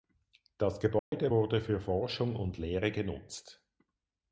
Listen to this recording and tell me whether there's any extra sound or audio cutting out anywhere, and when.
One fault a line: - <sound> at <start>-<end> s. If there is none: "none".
- dropout at 1.0-1.1 s